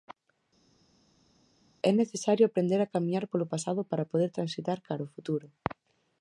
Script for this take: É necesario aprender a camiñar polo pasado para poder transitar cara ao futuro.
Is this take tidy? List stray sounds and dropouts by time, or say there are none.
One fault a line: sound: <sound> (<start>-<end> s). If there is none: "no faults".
no faults